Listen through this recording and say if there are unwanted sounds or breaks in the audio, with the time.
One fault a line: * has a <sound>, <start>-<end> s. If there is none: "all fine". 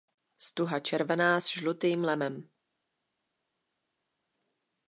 all fine